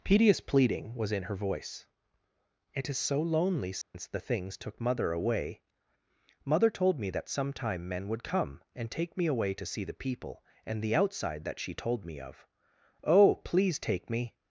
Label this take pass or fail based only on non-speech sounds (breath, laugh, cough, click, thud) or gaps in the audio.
fail